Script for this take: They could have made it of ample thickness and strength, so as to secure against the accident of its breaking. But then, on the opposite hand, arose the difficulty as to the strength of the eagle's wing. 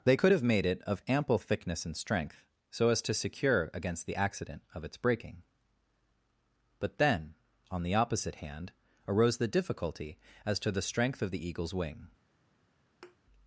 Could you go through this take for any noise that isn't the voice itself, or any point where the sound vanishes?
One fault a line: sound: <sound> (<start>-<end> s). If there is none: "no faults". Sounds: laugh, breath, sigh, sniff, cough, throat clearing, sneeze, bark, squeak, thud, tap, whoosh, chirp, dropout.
sound: thud (13.0-13.2 s)